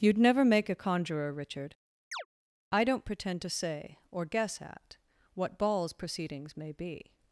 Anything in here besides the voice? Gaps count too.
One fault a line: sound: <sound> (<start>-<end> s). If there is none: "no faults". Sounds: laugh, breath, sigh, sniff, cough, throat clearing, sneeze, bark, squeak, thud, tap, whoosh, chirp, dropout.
sound: chirp (2.1-2.3 s)